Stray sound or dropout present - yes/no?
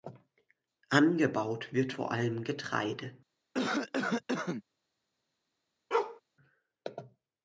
yes